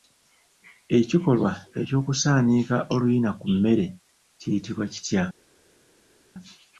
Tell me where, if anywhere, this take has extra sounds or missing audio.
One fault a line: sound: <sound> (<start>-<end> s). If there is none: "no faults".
no faults